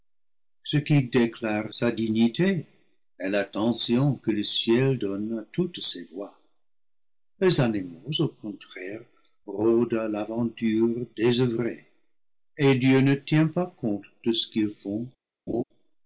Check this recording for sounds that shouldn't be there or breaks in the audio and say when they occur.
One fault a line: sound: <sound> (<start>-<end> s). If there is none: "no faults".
sound: laugh (15.5-15.6 s)